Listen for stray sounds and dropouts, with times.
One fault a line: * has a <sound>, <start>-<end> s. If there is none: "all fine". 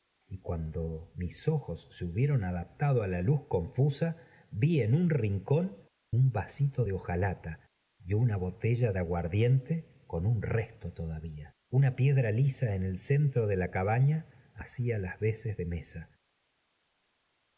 all fine